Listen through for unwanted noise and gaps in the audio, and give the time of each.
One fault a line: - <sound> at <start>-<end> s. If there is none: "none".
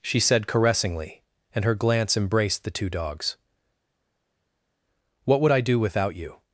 none